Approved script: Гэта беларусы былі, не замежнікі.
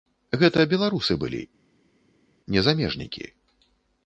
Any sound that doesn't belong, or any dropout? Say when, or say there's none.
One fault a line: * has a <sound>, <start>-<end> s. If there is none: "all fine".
all fine